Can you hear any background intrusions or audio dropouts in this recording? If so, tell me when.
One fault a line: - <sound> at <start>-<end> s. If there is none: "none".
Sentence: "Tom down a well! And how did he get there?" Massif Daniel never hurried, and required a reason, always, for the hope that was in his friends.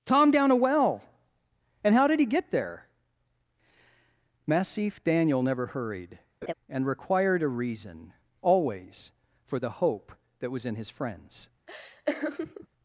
- laugh at 6.4-6.5 s
- laugh at 11.7-12.7 s